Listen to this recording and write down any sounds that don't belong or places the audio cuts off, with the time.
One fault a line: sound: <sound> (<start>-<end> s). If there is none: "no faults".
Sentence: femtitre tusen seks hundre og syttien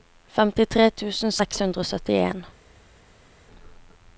no faults